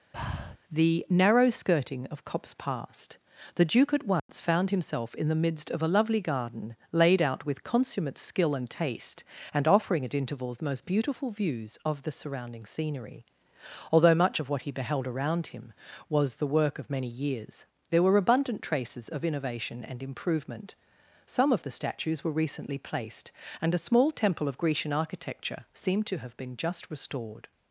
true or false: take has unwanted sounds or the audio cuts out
true